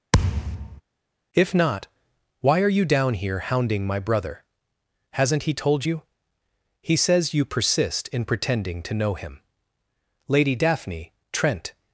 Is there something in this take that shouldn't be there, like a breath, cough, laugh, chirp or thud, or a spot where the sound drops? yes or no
yes